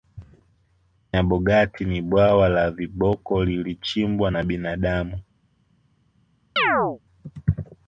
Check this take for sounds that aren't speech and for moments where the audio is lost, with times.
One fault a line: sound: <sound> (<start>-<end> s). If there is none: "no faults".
sound: chirp (6.6-7.0 s)